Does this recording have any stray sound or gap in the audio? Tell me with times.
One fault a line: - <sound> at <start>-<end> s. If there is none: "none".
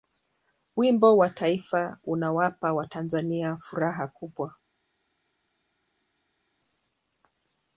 none